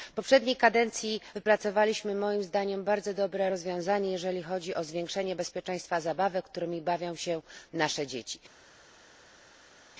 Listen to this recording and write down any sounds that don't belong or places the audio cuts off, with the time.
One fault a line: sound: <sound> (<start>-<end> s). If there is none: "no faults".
no faults